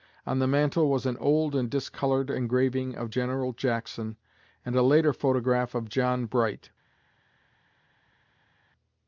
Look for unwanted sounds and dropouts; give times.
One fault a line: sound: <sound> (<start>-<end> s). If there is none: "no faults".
no faults